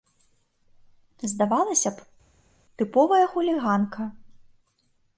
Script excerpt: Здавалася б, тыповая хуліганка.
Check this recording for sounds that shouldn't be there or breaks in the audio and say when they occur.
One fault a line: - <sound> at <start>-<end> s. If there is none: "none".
none